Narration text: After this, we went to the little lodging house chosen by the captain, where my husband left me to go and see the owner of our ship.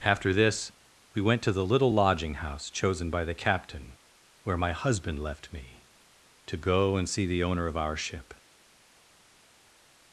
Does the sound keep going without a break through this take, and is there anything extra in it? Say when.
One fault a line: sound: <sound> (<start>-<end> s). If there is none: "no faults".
no faults